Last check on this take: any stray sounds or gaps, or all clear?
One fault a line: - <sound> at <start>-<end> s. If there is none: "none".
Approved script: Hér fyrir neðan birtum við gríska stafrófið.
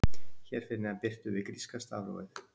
none